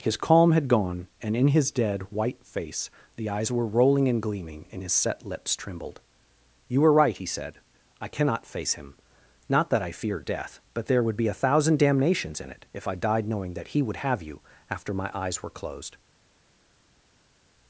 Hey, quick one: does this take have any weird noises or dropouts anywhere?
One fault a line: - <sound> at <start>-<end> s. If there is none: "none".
none